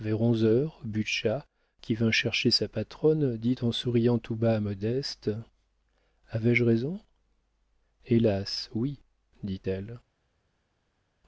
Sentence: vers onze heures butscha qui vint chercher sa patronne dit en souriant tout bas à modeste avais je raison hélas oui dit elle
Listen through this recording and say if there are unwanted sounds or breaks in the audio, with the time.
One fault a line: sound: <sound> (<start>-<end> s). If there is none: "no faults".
no faults